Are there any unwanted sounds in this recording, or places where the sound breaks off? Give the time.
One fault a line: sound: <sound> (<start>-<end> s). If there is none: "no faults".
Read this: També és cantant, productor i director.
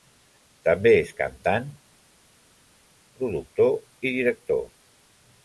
no faults